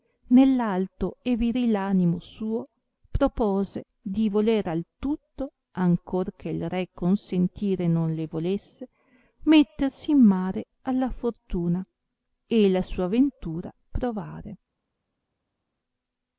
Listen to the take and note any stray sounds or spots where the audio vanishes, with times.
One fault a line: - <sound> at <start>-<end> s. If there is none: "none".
none